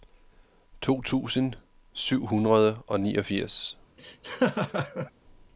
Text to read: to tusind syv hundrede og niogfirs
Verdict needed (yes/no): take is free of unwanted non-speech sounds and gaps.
no